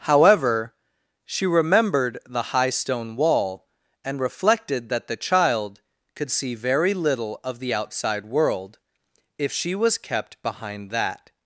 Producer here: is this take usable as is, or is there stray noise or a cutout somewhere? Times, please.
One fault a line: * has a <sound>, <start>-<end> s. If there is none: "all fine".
all fine